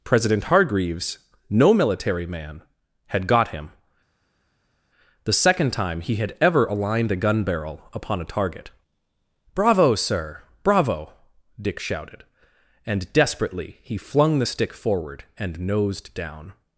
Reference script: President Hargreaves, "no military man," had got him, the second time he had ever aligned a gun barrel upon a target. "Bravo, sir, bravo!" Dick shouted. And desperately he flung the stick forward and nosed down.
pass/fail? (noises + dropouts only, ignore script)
pass